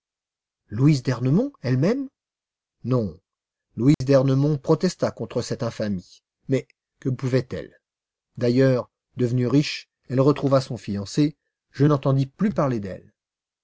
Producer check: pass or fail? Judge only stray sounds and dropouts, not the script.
fail